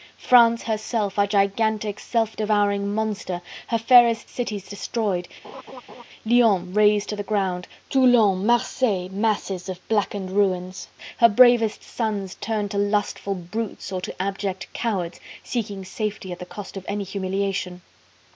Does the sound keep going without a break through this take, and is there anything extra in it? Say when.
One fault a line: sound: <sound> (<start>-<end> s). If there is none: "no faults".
sound: laugh (5.4-6.0 s)